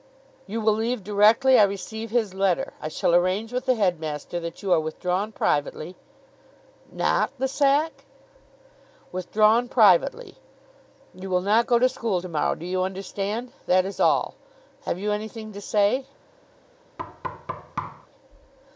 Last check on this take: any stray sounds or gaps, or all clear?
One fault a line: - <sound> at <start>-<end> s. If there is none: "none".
- thud at 17.0-18.1 s